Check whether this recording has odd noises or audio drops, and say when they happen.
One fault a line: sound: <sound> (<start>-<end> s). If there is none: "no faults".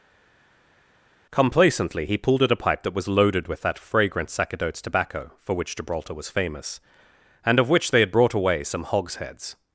no faults